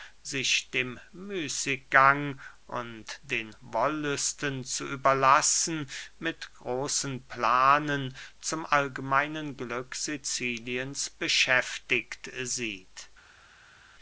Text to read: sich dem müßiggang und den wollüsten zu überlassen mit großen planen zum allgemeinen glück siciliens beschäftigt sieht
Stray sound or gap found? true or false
false